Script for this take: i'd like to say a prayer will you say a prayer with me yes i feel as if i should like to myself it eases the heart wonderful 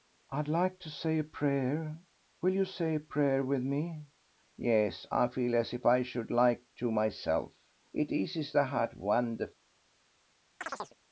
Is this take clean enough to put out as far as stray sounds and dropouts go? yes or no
no